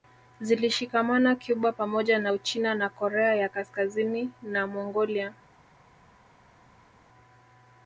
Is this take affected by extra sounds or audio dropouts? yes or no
no